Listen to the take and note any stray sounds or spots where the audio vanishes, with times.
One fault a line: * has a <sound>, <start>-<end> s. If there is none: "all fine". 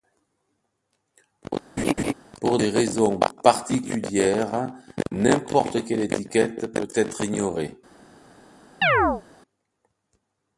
* has a laugh, 1.8-2.1 s
* has a chirp, 8.8-9.2 s